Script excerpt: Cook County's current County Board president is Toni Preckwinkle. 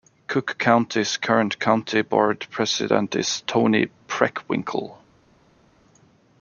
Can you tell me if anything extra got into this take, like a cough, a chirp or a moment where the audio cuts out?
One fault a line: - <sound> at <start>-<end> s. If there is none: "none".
none